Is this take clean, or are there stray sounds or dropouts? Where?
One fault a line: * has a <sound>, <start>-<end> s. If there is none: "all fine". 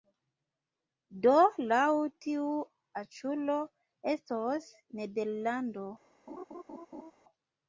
* has a laugh, 6.3-7.1 s